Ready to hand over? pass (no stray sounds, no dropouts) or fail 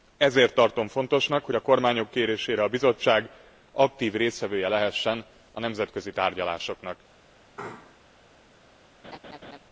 fail